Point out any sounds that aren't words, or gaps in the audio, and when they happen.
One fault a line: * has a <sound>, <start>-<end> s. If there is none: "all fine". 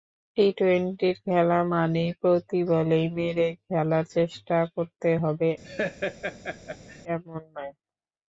* has a laugh, 5.6-7.0 s